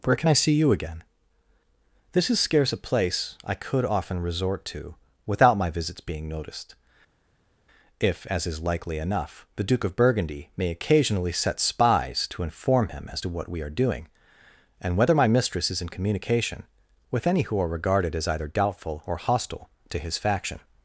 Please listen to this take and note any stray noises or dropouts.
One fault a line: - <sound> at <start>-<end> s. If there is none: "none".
none